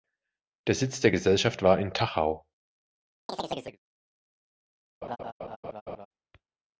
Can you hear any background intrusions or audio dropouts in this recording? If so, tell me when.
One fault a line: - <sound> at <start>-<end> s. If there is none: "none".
- chirp at 3.3-3.8 s
- laugh at 5.0-6.1 s